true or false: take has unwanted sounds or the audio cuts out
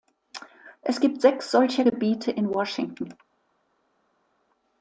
false